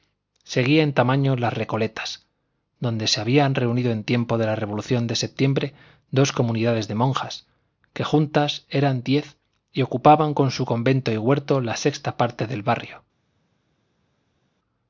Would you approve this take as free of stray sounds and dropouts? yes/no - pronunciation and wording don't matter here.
yes